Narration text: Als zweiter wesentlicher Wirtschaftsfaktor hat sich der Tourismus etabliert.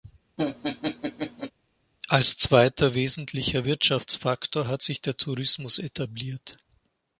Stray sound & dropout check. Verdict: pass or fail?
fail